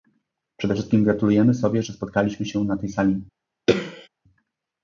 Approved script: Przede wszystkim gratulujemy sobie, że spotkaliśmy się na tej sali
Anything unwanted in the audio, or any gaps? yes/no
yes